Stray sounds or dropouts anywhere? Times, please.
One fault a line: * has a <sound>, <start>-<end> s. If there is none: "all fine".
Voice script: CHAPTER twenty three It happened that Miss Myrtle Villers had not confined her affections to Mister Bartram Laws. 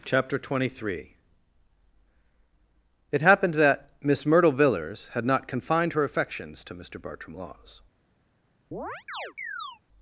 * has a chirp, 8.7-9.8 s